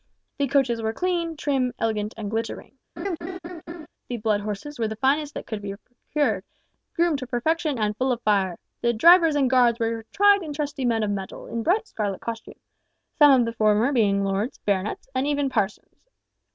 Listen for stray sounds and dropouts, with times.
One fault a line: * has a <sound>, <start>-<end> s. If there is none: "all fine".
* has a laugh, 3.0-3.9 s